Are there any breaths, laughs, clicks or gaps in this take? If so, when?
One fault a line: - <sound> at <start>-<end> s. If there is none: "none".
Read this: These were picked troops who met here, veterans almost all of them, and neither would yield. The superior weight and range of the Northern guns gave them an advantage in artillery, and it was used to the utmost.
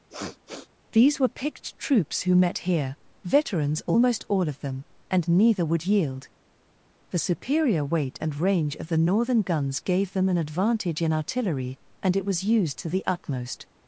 - sniff at 0.1-0.7 s